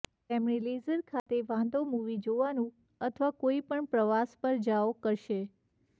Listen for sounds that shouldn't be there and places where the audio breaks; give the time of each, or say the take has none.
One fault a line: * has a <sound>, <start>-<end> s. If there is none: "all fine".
* has a dropout, 1.2-1.3 s